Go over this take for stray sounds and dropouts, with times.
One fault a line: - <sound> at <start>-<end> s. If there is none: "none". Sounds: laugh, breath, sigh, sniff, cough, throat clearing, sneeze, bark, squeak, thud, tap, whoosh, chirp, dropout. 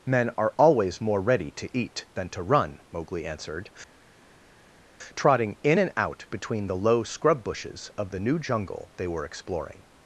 none